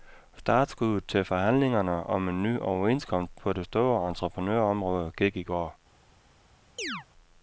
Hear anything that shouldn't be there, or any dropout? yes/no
yes